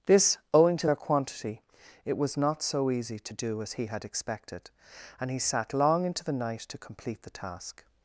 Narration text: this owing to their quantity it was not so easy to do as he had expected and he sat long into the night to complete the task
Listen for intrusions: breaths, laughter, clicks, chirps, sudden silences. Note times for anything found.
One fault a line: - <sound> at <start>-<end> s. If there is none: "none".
none